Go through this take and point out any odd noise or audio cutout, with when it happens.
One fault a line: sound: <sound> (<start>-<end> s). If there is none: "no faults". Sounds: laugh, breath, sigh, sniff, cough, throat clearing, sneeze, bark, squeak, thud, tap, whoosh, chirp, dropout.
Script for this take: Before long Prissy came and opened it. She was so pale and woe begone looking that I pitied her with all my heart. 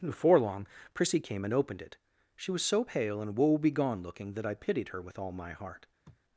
sound: sniff (6.0-6.2 s)